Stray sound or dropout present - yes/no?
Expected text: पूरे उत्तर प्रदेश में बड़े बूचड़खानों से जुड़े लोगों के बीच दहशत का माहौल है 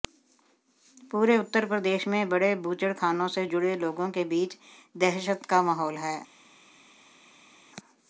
no